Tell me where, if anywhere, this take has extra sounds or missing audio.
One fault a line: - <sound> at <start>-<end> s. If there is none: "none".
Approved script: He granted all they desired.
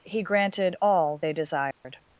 - dropout at 1.7-1.8 s